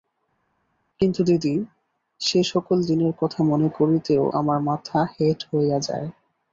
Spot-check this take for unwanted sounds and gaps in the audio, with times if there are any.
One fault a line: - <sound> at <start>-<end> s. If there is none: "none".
none